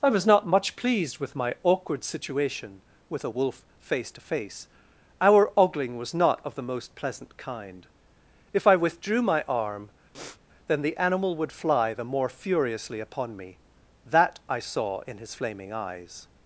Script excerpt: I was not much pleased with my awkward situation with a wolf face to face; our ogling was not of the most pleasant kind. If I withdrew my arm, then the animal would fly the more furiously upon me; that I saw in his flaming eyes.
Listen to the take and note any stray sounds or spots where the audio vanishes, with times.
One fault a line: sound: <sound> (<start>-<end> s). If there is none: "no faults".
sound: sniff (10.1-10.4 s)